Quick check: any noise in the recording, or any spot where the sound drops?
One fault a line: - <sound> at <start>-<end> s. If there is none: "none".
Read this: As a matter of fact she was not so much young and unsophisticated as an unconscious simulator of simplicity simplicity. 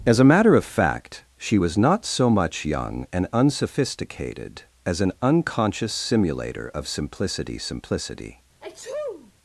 - sneeze at 8.6-9.3 s